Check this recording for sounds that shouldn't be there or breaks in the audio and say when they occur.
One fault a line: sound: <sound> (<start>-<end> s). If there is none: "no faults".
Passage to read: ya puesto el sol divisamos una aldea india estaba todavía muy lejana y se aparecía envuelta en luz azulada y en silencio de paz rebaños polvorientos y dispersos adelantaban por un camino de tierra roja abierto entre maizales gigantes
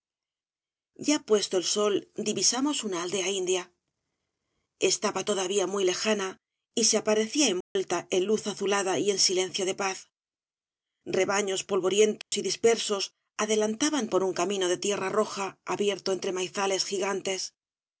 sound: dropout (7.6-7.8 s)
sound: dropout (12.2-12.3 s)